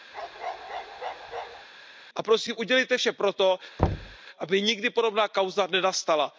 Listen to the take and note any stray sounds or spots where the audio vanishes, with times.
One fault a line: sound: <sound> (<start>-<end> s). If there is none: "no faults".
sound: bark (0.1-1.7 s)
sound: thud (3.8-4.2 s)